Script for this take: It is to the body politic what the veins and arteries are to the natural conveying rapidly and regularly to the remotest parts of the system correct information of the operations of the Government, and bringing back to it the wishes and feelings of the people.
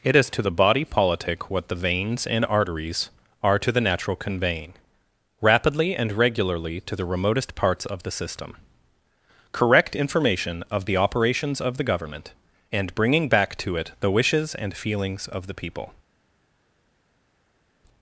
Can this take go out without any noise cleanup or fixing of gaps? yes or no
yes